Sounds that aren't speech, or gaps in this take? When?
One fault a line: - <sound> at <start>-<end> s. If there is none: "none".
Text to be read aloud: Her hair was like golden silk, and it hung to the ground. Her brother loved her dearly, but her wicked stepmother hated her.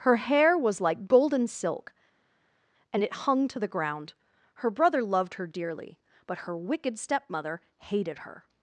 none